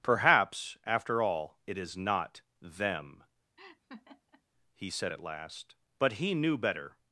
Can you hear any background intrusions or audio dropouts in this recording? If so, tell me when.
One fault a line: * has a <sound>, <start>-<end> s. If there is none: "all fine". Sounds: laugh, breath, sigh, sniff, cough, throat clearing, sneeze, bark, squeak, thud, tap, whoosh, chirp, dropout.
* has a laugh, 3.6-4.4 s